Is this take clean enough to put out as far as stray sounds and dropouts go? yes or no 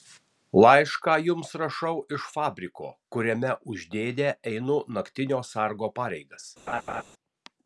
no